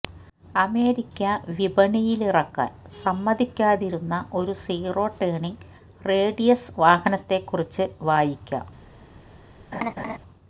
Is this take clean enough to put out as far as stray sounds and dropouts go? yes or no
no